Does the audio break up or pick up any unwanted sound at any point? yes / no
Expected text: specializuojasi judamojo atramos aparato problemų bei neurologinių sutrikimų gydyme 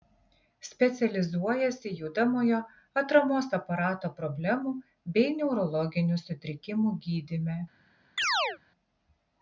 yes